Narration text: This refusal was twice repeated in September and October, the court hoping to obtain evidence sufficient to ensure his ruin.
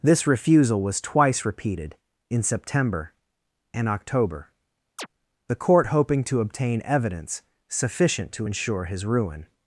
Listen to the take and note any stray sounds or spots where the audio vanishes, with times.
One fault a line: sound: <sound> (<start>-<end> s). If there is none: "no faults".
sound: chirp (5.0-5.1 s)